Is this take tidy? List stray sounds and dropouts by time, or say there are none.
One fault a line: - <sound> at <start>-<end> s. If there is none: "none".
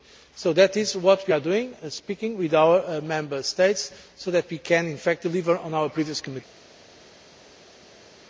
none